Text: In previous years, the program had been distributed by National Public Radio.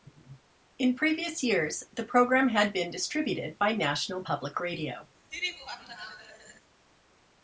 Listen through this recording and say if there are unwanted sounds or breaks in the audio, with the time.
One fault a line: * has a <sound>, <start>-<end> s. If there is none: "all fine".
* has a laugh, 5.3-6.6 s